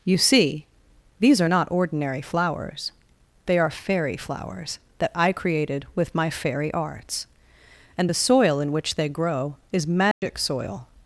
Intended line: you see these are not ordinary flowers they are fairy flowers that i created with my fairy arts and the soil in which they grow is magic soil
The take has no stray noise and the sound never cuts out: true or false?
false